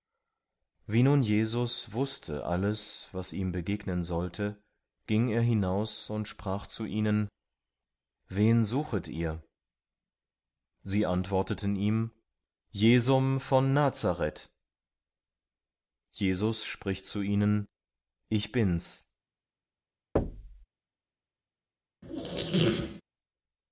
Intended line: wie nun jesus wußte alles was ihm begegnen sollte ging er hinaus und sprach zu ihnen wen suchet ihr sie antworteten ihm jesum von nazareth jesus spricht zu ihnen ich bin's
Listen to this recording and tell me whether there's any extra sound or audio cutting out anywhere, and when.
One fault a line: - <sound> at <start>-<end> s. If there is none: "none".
- thud at 20.2-20.7 s
- squeak at 22.0-23.0 s